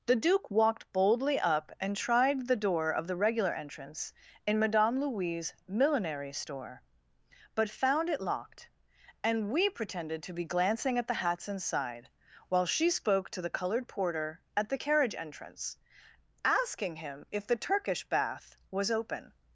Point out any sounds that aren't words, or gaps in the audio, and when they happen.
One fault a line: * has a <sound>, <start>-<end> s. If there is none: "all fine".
all fine